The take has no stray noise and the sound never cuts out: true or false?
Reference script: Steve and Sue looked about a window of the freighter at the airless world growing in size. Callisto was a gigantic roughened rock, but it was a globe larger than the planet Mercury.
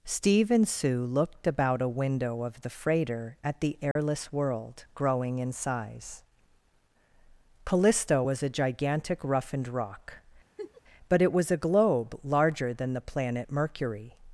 false